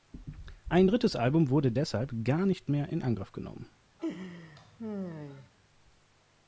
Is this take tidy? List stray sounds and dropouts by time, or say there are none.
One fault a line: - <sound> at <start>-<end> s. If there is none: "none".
- laugh at 4.0-5.5 s